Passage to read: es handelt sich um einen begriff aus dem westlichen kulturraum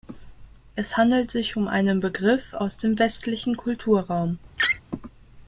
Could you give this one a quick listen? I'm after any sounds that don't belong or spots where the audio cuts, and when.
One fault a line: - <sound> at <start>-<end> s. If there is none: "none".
- laugh at 4.6-4.8 s